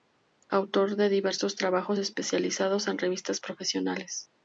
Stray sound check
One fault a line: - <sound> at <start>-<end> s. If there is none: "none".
none